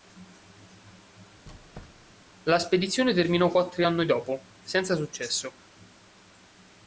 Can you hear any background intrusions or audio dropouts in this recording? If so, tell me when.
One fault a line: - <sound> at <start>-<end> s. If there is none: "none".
- squeak at 1.5-2.2 s